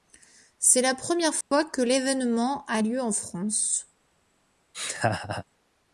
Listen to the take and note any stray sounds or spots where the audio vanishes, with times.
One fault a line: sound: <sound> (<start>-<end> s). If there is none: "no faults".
sound: dropout (1.4-1.5 s)
sound: laugh (4.7-5.4 s)